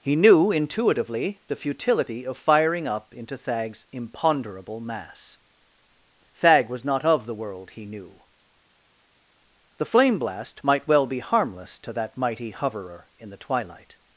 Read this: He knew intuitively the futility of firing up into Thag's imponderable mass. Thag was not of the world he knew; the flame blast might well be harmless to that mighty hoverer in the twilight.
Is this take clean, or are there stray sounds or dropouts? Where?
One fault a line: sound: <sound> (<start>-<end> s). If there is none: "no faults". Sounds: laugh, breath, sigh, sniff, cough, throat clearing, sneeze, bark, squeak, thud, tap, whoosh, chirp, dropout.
no faults